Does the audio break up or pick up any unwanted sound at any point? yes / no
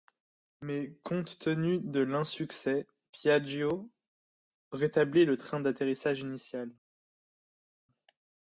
no